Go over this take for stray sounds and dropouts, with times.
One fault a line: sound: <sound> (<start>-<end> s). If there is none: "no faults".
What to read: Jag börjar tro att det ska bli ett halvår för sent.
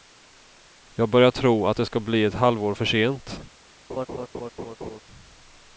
sound: laugh (3.9-5.0 s)